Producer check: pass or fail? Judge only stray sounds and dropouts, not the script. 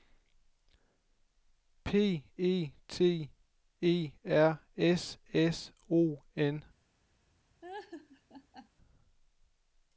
fail